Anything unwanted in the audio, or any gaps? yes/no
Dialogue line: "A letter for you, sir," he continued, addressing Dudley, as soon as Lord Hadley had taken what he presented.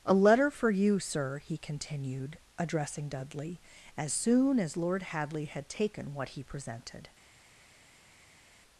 no